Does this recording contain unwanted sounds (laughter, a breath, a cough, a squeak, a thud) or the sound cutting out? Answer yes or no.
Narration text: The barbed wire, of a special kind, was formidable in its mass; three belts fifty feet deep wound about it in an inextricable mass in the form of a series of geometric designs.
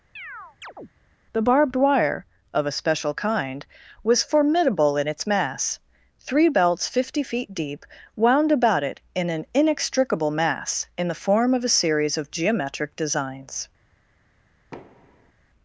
yes